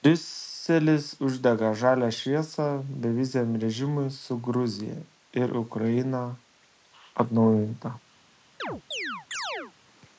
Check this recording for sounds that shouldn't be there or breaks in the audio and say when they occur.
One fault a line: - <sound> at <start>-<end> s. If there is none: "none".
- chirp at 8.6-9.7 s